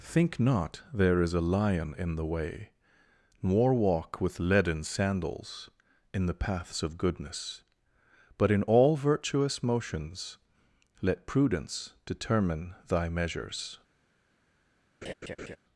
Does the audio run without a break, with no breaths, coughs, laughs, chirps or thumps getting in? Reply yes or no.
no